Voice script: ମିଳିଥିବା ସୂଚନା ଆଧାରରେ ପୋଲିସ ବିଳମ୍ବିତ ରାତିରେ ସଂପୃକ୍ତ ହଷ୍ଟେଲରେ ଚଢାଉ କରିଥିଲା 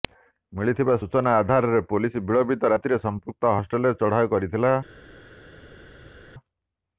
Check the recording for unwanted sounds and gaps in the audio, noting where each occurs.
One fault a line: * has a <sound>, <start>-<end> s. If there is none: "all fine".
all fine